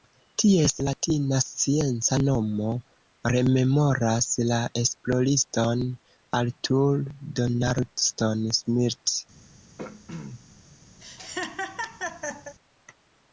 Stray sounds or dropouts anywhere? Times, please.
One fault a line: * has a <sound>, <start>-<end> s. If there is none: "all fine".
* has a throat clearing, 9.8-10.4 s
* has a laugh, 11.0-12.5 s